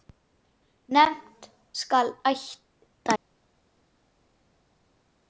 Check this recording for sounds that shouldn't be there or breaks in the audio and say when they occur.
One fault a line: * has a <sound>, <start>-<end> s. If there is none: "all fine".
all fine